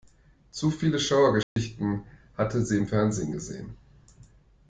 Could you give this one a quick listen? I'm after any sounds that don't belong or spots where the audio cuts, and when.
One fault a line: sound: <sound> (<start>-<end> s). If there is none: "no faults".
sound: dropout (1.4-1.6 s)